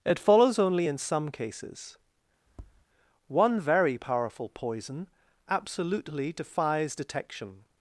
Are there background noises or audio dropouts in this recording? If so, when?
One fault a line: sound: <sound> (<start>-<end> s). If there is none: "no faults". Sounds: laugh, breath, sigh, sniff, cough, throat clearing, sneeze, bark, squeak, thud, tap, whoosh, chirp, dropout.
sound: tap (2.5-2.9 s)